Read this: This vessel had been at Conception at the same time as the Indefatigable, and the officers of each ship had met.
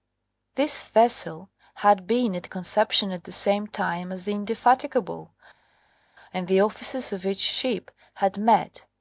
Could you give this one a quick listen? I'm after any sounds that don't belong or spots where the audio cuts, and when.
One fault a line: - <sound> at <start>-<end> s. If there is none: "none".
none